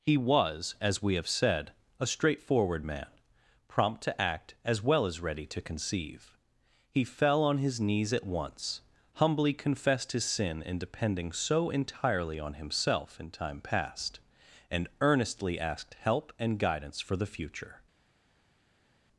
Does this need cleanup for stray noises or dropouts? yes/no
no